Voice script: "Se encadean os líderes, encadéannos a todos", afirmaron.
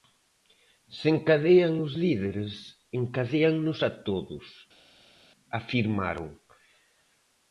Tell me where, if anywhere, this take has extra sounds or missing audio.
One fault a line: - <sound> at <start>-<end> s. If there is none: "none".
none